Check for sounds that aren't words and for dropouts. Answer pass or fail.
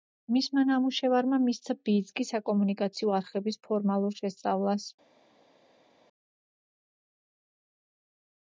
pass